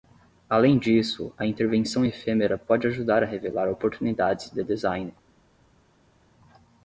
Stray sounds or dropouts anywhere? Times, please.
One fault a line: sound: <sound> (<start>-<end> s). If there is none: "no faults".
no faults